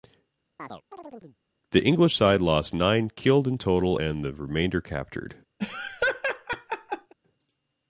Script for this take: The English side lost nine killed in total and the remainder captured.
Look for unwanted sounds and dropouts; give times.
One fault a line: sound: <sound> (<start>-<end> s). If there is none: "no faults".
sound: chirp (0.6-1.4 s)
sound: laugh (5.6-7.1 s)